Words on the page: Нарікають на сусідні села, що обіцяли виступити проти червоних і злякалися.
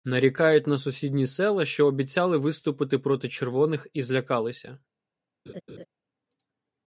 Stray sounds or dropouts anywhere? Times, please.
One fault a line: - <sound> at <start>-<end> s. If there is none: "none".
- laugh at 5.5-5.9 s